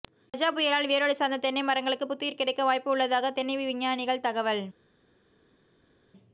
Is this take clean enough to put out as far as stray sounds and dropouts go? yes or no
yes